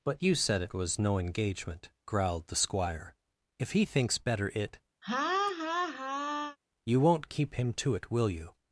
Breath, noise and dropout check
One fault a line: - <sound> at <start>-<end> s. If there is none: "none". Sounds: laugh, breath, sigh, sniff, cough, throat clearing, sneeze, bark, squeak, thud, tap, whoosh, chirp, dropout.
- laugh at 5.0-6.6 s